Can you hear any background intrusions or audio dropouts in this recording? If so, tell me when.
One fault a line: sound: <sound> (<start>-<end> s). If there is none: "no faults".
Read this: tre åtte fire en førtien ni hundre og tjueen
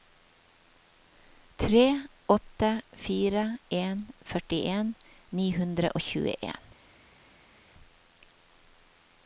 no faults